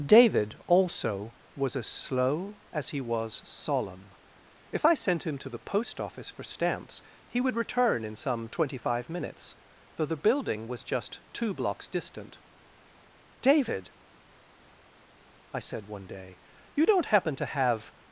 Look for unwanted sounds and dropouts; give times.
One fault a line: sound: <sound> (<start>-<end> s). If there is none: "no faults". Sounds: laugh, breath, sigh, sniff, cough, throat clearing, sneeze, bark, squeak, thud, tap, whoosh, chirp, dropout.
no faults